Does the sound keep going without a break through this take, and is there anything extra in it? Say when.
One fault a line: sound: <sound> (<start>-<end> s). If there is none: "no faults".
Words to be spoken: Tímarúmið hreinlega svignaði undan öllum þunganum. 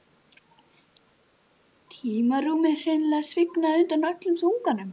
no faults